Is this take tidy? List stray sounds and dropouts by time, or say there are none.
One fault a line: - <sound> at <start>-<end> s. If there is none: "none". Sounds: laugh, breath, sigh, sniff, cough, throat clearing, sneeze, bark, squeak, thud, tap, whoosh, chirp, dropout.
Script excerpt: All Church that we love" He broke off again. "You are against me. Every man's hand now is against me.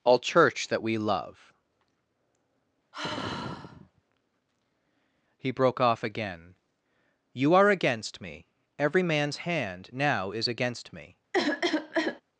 - sigh at 2.9-4.0 s
- cough at 11.3-12.2 s